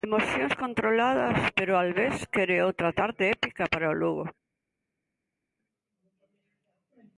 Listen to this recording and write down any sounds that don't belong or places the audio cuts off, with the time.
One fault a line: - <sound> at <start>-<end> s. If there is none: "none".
none